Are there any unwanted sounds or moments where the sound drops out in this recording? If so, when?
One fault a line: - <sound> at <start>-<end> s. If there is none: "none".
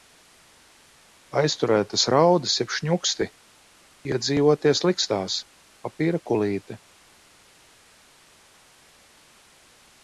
none